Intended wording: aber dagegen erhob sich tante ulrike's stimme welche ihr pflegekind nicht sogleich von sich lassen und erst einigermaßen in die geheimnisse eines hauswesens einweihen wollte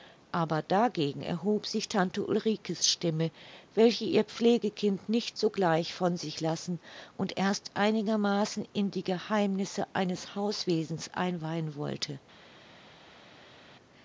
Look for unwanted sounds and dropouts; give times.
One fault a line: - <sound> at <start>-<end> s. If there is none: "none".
none